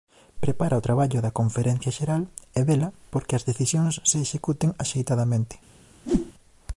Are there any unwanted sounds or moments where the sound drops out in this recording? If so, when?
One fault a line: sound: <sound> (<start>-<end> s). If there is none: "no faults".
sound: whoosh (6.0-6.3 s)